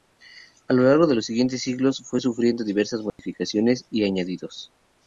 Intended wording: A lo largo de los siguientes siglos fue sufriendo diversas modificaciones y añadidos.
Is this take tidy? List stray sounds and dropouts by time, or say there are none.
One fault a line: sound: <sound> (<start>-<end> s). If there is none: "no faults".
sound: dropout (3.1-3.2 s)